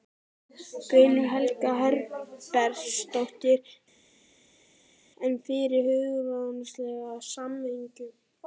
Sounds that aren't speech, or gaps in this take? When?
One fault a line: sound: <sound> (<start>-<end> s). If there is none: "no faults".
no faults